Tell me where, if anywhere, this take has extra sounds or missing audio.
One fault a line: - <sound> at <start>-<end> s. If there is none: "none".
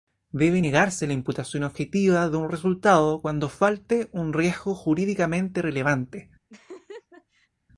- laugh at 6.5-7.5 s